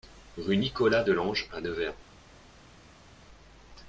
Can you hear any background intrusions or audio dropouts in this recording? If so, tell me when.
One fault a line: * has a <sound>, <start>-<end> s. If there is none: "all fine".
all fine